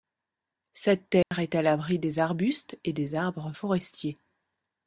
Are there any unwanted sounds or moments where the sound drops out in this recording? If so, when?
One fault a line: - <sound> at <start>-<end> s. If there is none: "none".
- dropout at 1.2-1.3 s